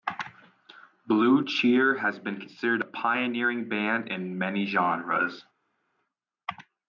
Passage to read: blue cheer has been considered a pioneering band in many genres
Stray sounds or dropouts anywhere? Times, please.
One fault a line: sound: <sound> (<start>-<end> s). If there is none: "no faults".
no faults